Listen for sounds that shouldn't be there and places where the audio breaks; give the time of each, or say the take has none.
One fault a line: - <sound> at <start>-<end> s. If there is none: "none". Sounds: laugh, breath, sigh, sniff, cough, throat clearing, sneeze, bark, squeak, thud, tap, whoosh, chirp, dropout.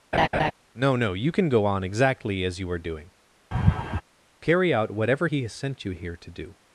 - laugh at 0.1-0.5 s
- laugh at 3.5-4.0 s